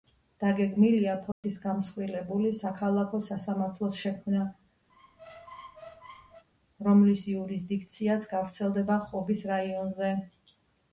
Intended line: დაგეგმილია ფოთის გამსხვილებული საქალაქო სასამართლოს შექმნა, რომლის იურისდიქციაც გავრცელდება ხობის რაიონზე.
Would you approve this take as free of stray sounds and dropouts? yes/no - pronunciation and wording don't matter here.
no